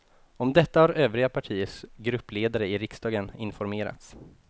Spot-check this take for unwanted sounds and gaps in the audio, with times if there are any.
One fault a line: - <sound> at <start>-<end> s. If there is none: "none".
none